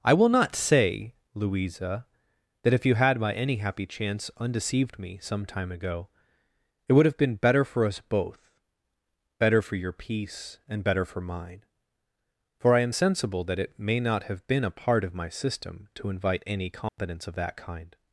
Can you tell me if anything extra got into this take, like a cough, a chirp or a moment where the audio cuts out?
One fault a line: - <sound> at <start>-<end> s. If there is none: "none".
- dropout at 16.9-17.0 s